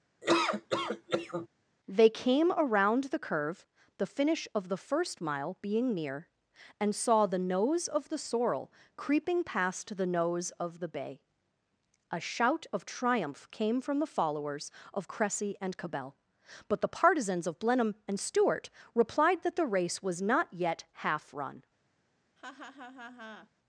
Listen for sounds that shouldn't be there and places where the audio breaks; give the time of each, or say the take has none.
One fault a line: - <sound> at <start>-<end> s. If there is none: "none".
- laugh at 0.2-1.5 s
- laugh at 22.4-23.5 s